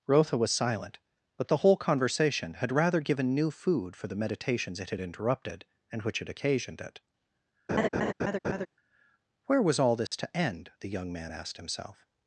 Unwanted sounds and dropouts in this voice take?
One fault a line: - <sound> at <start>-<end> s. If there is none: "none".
- laugh at 7.7-8.7 s
- dropout at 10.1-10.1 s